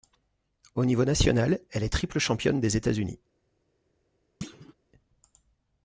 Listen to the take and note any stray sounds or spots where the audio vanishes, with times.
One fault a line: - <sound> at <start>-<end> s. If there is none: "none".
- thud at 4.4-4.7 s